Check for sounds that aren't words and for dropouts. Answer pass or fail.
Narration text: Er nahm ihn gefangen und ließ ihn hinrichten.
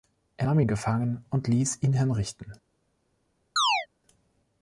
fail